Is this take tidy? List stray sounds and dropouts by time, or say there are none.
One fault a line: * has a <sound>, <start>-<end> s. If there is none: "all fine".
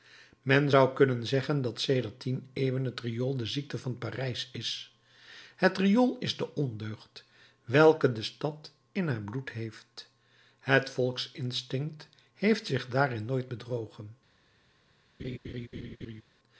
* has a laugh, 15.2-16.2 s